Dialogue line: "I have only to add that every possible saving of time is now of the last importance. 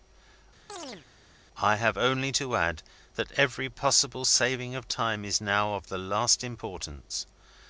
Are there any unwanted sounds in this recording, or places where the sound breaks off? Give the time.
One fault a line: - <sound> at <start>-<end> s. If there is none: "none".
- chirp at 0.7-1.1 s